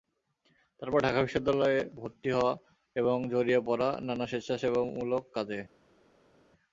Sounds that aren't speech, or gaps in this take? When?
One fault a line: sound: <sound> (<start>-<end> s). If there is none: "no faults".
no faults